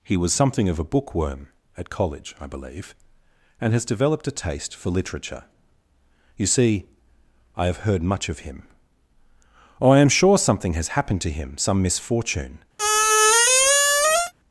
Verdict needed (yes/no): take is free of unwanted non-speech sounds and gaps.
no